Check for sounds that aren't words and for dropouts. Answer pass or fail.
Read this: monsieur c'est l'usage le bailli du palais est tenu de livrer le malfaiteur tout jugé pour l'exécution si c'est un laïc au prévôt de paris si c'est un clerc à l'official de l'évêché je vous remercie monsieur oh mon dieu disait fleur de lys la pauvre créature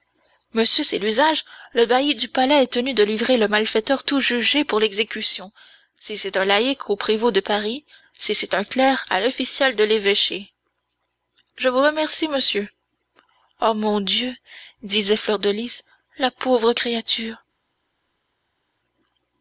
pass